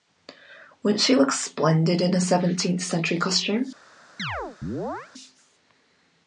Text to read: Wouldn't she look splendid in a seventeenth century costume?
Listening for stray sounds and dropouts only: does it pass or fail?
fail